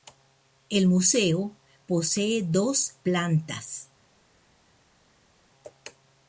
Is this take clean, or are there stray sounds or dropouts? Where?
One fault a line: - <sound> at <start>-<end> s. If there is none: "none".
none